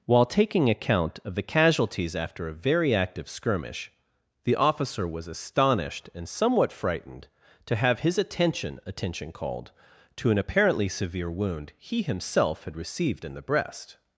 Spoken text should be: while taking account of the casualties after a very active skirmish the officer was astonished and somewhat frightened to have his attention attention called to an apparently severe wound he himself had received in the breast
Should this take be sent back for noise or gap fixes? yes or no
no